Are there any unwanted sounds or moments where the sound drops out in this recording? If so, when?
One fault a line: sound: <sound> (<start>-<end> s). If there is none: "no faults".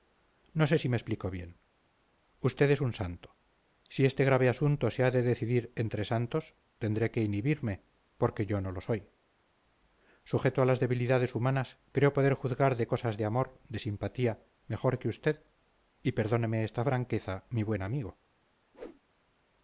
sound: whoosh (18.7-19.0 s)